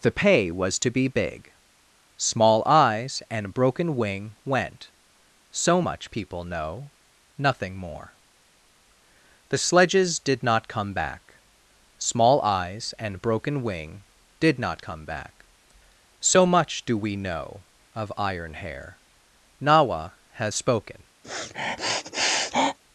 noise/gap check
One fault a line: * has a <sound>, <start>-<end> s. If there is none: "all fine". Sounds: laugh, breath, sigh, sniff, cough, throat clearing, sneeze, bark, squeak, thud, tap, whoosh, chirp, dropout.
* has a sniff, 21.2-22.8 s